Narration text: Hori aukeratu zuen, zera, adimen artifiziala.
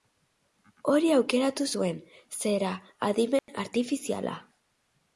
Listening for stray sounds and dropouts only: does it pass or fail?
fail